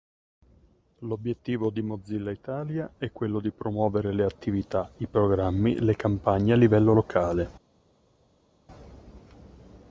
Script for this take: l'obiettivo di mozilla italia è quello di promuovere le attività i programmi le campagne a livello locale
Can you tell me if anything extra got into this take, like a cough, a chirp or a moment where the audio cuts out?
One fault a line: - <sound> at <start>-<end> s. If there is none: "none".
none